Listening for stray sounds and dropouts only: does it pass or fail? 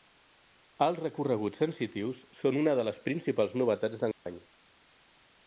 fail